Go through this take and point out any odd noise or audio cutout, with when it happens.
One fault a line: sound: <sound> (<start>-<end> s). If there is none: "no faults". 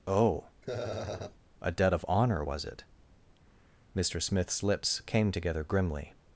sound: laugh (0.6-1.4 s)